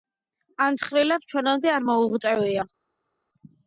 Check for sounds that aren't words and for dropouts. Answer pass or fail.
pass